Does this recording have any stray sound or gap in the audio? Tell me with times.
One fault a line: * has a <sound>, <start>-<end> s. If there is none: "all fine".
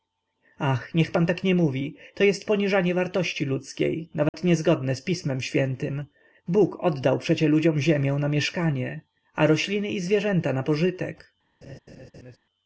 * has a dropout, 4.3-4.3 s
* has a laugh, 11.6-12.4 s